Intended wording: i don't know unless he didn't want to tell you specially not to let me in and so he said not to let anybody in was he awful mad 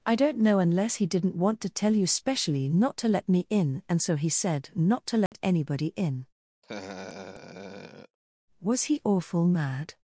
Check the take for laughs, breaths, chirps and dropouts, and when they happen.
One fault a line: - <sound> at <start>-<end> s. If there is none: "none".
- dropout at 5.3-5.3 s
- laugh at 6.6-8.2 s